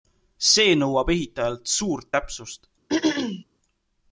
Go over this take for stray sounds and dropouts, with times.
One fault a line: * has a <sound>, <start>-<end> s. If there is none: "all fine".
* has a throat clearing, 2.9-3.4 s